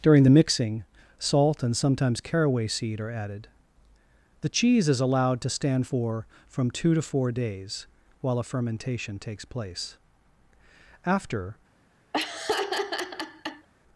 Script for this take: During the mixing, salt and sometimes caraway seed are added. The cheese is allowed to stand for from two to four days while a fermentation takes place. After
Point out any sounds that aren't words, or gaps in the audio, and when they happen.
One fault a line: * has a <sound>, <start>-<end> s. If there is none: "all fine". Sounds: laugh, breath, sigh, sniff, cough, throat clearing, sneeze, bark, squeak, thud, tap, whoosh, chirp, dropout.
* has a laugh, 12.1-13.7 s